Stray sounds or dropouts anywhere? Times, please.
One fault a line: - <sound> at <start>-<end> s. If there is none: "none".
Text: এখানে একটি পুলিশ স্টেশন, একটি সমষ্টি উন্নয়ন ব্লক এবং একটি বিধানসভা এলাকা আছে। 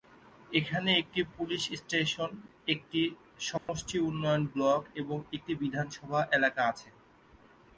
- dropout at 3.6-3.7 s